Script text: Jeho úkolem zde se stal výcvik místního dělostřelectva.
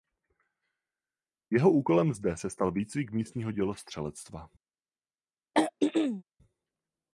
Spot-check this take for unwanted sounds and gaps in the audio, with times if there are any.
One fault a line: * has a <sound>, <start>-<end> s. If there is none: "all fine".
* has a throat clearing, 5.5-6.2 s